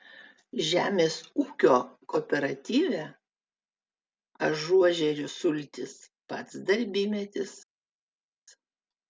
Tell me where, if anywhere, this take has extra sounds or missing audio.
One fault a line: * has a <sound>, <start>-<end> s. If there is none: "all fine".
all fine